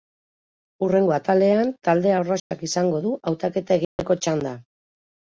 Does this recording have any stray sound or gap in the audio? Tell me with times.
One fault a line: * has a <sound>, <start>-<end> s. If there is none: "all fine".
* has a dropout, 2.4-2.5 s
* has a dropout, 3.8-4.0 s